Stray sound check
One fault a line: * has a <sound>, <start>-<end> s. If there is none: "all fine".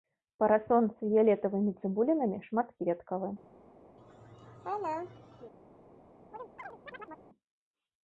* has a laugh, 4.0-5.5 s
* has a chirp, 6.3-7.3 s